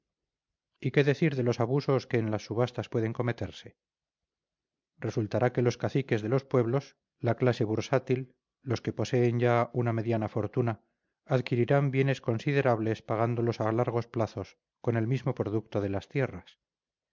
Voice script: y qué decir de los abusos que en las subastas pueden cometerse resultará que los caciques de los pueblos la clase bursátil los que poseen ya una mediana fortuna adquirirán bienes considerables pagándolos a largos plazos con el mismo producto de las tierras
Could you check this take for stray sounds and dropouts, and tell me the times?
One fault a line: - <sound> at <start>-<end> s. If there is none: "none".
none